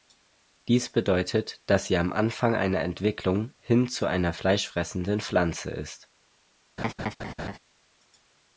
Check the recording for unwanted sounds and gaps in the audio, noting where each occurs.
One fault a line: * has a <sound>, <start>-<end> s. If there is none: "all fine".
* has a laugh, 6.8-7.6 s